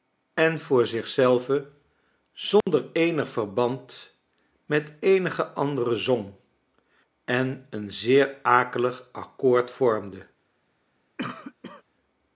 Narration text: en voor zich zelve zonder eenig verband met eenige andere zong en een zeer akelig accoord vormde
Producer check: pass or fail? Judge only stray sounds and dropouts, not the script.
fail